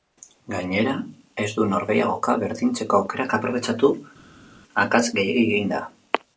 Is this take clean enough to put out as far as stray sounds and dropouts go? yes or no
yes